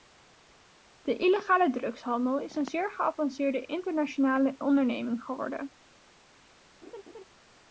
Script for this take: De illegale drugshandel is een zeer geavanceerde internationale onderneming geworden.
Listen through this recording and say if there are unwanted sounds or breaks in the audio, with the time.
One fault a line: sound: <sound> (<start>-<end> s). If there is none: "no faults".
sound: laugh (6.8-7.2 s)